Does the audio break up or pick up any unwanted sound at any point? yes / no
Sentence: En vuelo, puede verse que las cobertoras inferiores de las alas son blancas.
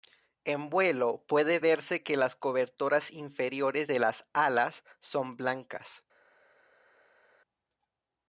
no